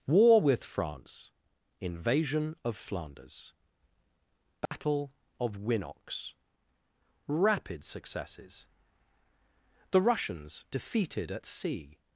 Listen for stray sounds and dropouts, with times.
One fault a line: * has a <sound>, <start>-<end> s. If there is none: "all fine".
* has a dropout, 4.7-4.7 s